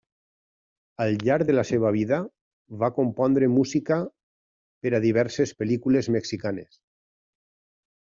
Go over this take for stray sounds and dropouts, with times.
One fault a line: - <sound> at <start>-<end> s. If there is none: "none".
none